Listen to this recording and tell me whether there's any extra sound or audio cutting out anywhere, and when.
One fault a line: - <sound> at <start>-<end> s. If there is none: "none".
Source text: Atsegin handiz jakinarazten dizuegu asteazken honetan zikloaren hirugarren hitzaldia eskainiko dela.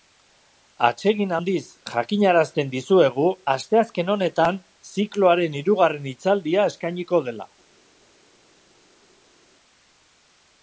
none